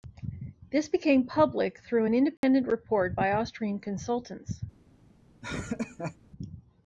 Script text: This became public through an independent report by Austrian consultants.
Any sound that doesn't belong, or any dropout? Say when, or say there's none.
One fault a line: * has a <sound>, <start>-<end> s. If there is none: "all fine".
* has a dropout, 2.4-2.4 s
* has a laugh, 5.4-6.2 s